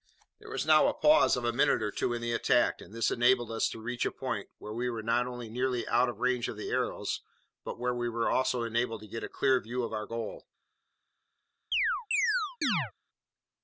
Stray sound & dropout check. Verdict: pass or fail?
fail